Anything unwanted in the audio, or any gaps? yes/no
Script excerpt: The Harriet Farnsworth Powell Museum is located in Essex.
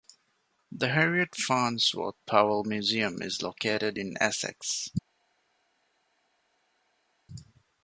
no